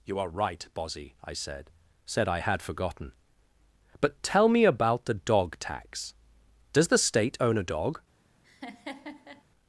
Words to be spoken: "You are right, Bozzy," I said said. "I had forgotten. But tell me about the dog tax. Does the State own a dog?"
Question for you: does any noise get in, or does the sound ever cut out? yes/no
yes